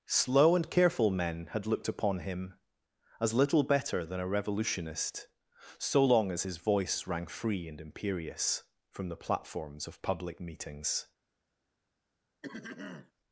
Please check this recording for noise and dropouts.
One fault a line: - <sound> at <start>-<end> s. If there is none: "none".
- throat clearing at 12.4-13.1 s